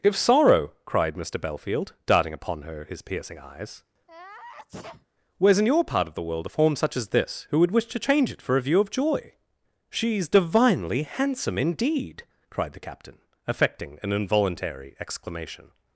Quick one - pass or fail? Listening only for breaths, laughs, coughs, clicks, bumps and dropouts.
fail